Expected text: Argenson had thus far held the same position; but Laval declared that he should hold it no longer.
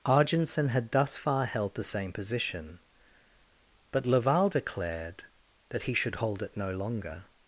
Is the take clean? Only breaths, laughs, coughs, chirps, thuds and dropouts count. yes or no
yes